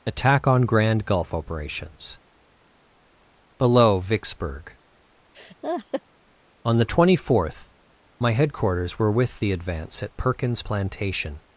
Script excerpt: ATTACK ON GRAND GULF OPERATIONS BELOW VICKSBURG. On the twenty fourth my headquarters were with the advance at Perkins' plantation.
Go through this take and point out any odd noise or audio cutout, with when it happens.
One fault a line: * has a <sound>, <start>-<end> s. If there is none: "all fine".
* has a laugh, 5.3-6.0 s